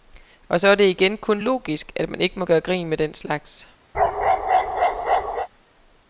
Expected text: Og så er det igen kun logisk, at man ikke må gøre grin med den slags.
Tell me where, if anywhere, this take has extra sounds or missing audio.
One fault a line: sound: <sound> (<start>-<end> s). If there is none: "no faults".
sound: bark (3.9-5.5 s)